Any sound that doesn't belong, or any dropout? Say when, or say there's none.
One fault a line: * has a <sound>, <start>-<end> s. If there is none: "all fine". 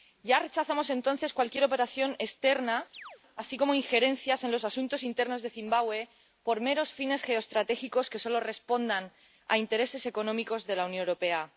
* has a chirp, 2.9-3.2 s